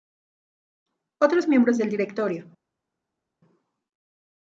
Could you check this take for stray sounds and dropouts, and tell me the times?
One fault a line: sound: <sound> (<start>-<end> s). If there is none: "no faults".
no faults